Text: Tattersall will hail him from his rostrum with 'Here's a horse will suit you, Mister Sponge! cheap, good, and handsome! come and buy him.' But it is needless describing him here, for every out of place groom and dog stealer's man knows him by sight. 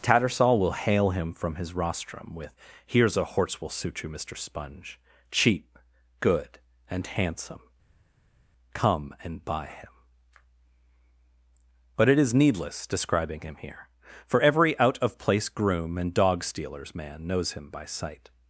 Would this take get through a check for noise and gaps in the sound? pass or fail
pass